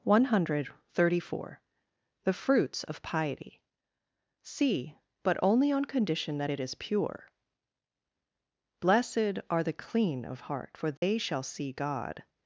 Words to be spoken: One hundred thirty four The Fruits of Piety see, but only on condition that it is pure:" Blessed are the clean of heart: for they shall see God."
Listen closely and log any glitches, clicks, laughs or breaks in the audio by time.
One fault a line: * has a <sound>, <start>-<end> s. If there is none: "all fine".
* has a dropout, 11.0-11.0 s